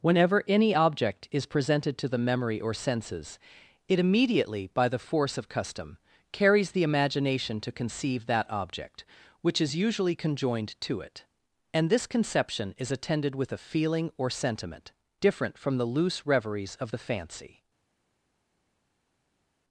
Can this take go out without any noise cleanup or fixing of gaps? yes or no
yes